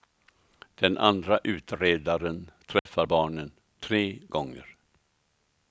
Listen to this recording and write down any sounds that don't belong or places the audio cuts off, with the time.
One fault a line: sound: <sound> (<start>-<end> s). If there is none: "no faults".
sound: dropout (2.8-2.9 s)